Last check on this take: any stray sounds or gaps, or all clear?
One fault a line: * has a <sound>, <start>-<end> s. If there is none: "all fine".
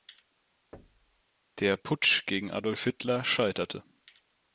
* has a thud, 0.7-1.2 s